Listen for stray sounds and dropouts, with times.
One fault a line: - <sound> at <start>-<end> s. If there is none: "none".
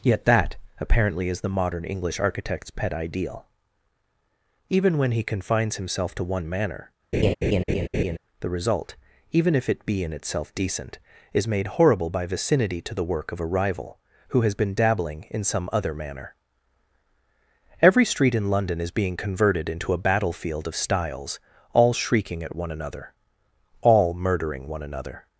- laugh at 7.1-8.2 s